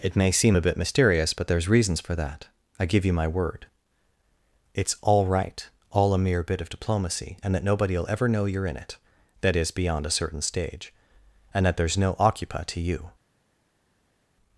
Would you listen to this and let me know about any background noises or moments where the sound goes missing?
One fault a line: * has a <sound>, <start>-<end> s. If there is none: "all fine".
all fine